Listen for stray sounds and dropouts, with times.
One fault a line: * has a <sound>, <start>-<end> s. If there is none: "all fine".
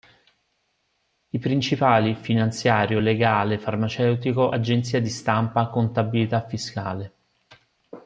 all fine